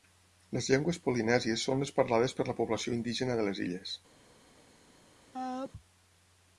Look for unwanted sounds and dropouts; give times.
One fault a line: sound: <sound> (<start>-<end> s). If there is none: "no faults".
sound: sneeze (5.3-5.7 s)